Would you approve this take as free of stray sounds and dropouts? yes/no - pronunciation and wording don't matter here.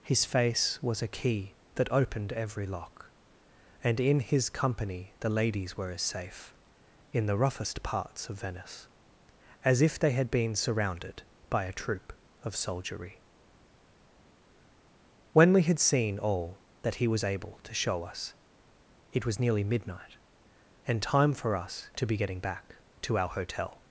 yes